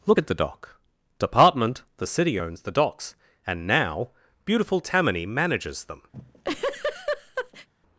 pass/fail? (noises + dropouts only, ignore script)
fail